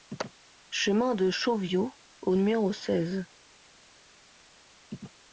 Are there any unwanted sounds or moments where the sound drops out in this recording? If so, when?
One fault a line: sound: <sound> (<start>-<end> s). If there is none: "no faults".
no faults